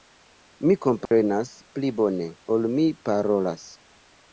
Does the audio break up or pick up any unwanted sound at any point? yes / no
yes